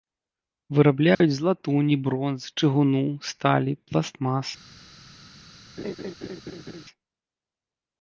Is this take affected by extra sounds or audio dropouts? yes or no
yes